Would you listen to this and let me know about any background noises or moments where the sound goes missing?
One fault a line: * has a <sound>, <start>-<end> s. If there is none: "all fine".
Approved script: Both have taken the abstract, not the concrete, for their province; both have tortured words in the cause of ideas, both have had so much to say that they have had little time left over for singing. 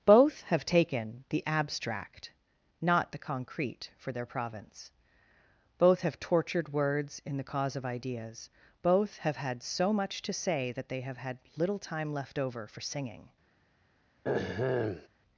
* has a throat clearing, 14.2-15.1 s